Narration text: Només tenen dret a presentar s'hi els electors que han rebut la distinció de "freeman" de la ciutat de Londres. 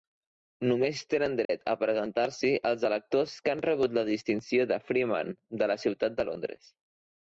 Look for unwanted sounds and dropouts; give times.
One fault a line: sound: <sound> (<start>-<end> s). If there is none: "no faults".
sound: dropout (1.4-1.5 s)